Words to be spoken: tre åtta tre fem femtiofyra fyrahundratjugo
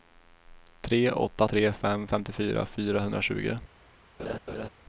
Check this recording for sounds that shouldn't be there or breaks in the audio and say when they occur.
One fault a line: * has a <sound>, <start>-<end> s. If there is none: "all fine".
* has a laugh, 4.2-4.7 s